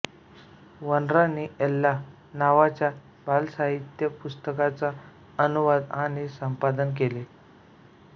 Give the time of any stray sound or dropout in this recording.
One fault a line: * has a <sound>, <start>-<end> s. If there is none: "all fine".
all fine